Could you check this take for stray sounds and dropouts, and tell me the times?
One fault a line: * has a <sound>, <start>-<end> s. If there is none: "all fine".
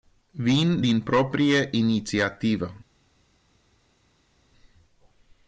all fine